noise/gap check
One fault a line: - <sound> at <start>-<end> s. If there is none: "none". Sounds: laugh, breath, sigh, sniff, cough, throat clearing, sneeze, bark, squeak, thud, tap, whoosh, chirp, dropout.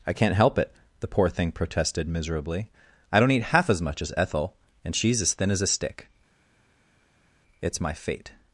none